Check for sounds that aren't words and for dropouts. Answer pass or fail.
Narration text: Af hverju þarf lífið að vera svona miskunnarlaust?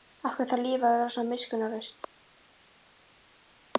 pass